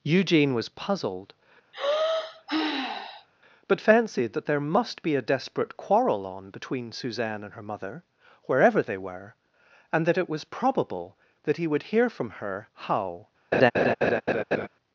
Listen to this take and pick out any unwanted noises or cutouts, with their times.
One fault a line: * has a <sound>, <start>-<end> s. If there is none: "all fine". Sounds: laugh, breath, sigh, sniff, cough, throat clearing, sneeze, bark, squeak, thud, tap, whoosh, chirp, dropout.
* has a sigh, 1.7-3.3 s
* has a laugh, 13.5-14.7 s